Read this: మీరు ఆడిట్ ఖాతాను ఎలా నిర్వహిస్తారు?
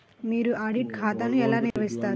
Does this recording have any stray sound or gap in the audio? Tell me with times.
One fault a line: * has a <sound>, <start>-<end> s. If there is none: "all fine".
* has a dropout, 1.7-1.8 s